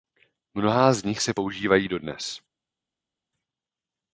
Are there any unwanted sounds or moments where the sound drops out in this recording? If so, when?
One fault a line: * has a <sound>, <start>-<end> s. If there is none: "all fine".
all fine